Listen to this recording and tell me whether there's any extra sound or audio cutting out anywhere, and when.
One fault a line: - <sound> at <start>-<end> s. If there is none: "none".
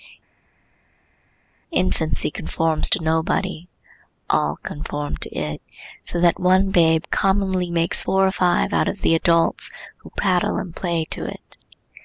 none